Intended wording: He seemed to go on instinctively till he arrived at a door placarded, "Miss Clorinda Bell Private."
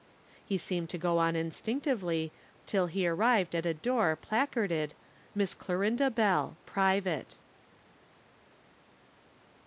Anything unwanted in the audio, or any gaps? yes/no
no